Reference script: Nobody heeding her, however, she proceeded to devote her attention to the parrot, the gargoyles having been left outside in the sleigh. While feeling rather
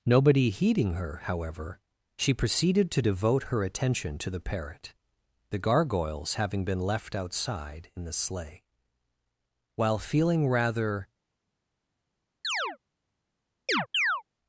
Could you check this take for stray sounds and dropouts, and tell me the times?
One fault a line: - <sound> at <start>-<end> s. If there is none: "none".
- chirp at 12.4-12.8 s
- chirp at 13.7-14.2 s